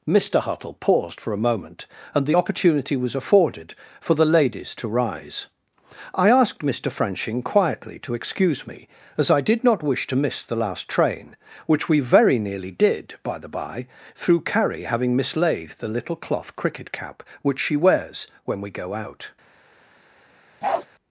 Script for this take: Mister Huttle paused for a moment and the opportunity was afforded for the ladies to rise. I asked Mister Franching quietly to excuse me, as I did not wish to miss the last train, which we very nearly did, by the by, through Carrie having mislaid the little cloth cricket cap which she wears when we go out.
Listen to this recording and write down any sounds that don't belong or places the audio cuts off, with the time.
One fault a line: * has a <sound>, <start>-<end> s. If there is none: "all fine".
* has a bark, 20.6-20.9 s